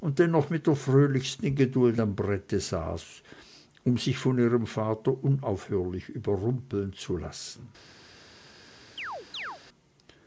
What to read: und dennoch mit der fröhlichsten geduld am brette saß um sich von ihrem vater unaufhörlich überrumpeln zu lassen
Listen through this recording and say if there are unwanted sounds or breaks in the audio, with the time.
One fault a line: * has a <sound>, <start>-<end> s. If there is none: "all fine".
* has a chirp, 9.0-9.6 s